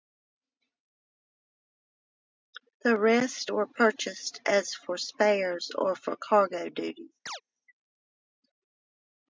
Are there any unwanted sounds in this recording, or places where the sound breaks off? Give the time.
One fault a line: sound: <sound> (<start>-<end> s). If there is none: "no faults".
sound: chirp (7.3-7.4 s)